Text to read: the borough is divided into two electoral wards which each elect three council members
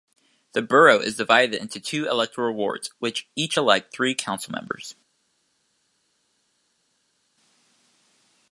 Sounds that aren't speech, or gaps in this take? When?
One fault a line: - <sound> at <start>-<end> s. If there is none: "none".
none